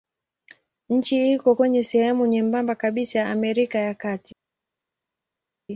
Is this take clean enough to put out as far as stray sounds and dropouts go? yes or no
yes